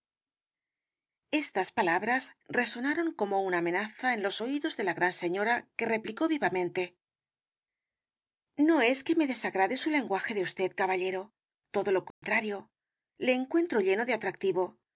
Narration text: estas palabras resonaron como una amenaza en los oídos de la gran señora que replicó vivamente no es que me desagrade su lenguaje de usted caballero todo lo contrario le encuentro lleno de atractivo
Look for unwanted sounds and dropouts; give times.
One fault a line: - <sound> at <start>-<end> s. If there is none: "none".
- dropout at 12.1-12.2 s